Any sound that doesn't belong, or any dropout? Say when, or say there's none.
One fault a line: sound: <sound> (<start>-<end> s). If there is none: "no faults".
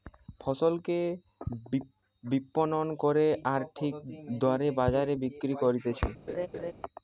sound: laugh (6.3-6.7 s)